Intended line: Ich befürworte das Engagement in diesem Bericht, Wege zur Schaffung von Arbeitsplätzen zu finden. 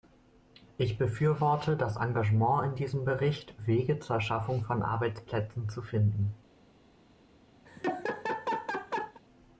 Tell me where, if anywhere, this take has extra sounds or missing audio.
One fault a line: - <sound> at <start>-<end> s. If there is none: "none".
- laugh at 7.6-9.2 s